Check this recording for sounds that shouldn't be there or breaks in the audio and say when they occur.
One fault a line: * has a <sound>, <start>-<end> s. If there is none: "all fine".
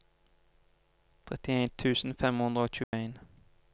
* has a dropout, 2.8-2.9 s